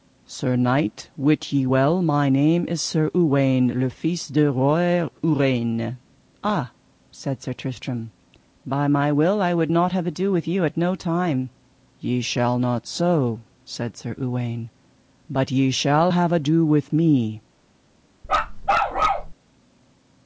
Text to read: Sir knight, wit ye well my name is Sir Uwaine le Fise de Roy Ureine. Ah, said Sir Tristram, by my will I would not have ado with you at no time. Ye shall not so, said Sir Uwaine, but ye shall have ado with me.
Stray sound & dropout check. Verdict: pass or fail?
fail